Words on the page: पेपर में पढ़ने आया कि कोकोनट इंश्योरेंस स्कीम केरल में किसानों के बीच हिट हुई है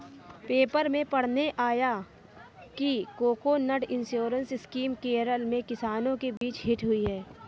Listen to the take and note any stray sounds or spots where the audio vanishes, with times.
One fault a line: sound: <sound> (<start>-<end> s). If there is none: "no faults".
sound: dropout (6.4-6.4 s)